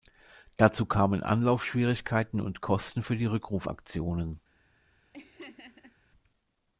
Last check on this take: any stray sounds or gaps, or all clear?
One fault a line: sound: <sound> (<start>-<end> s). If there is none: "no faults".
sound: laugh (5.1-6.0 s)